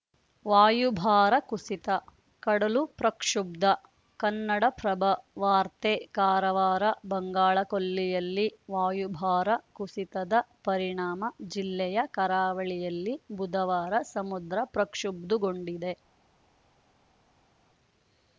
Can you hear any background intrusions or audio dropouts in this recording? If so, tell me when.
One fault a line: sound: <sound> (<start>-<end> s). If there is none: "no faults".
no faults